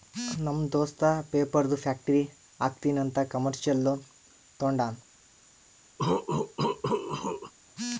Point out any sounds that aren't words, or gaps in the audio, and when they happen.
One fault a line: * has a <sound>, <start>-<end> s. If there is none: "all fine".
* has a cough, 6.0-7.5 s